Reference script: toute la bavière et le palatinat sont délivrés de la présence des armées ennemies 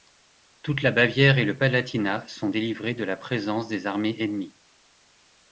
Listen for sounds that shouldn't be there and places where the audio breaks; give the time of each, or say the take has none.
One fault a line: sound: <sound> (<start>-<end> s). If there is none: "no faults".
no faults